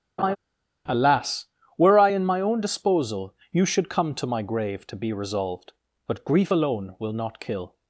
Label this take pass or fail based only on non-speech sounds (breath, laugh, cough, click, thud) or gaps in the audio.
fail